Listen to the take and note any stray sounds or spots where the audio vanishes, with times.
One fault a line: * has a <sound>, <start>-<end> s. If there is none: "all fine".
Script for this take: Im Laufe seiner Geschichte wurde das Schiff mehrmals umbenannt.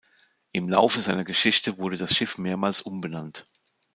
all fine